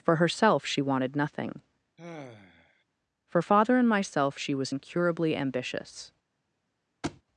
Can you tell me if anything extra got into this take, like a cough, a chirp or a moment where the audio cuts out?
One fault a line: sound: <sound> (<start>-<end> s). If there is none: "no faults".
sound: sigh (2.0-2.8 s)
sound: thud (7.0-7.2 s)